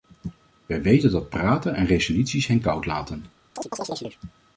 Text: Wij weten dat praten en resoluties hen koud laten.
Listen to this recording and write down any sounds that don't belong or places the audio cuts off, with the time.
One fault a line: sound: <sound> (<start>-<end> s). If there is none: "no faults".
sound: chirp (3.6-4.2 s)